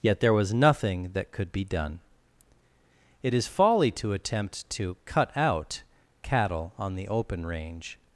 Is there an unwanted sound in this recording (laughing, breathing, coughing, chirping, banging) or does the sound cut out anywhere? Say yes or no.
no